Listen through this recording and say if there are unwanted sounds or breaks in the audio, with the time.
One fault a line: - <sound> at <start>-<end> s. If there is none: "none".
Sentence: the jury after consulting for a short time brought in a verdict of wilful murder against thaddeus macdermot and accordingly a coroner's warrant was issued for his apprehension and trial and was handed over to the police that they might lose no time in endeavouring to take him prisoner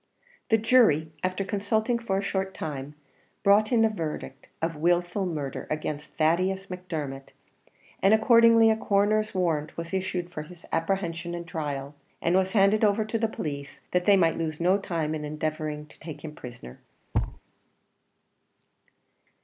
- thud at 17.1-17.4 s